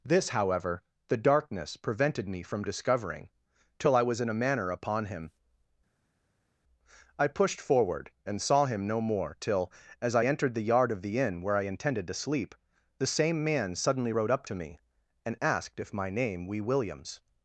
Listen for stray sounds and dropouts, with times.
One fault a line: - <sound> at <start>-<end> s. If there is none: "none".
none